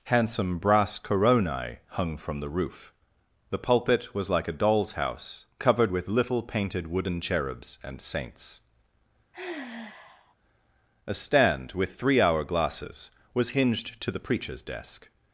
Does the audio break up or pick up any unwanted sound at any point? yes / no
yes